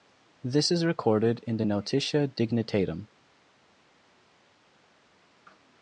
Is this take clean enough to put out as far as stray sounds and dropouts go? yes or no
yes